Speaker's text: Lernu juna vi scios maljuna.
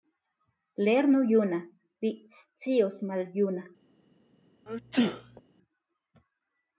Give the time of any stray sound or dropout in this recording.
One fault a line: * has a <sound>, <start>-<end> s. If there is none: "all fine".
* has a sneeze, 4.7-5.4 s